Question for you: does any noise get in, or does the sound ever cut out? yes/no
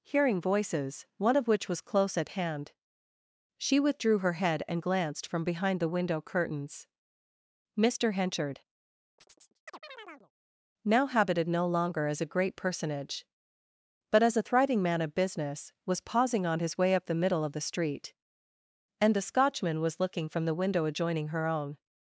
yes